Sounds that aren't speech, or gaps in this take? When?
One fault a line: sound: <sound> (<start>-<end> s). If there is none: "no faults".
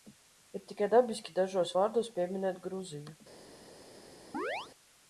sound: chirp (4.3-4.7 s)